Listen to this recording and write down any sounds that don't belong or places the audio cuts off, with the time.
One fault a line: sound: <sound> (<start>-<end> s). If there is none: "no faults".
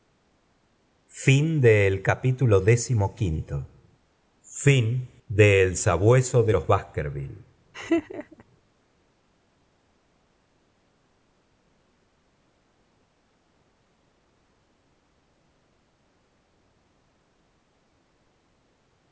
sound: laugh (7.7-8.4 s)